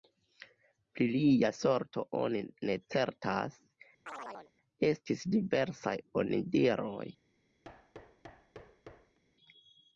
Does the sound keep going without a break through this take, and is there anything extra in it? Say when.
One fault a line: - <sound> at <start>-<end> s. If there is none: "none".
- chirp at 4.1-4.5 s
- thud at 7.6-9.2 s